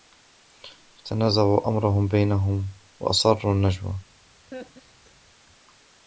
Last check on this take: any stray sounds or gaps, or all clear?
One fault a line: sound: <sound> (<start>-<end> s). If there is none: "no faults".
sound: laugh (4.5-5.2 s)